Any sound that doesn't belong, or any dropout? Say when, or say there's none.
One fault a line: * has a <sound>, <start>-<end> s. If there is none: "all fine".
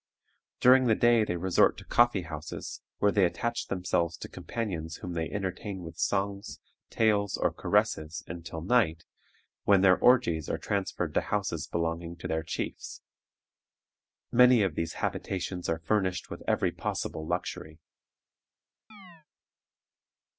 * has a chirp, 18.9-19.3 s